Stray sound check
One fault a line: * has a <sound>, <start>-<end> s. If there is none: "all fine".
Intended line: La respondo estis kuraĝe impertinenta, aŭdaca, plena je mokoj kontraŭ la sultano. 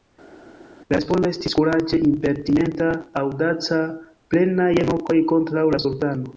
all fine